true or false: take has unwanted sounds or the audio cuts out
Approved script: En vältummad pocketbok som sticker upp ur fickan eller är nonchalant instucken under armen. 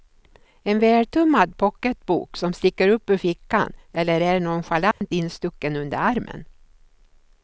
true